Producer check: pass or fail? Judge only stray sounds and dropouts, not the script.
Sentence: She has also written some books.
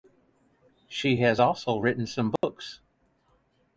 fail